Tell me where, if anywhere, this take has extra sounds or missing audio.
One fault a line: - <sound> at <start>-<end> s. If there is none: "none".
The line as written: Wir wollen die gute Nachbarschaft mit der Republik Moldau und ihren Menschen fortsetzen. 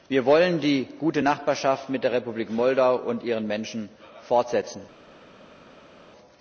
none